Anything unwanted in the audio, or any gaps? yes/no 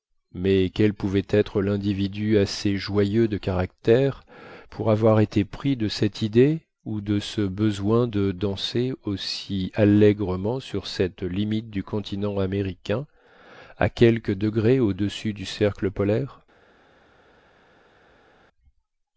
no